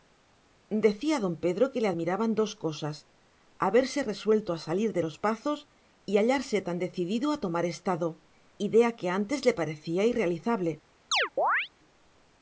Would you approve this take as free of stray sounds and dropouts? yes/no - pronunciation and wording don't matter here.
no